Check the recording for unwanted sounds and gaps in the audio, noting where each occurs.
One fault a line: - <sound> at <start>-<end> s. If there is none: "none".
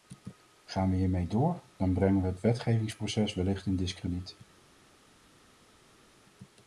none